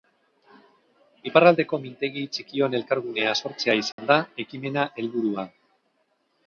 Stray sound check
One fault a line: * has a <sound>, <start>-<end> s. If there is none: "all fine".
* has a dropout, 3.9-4.0 s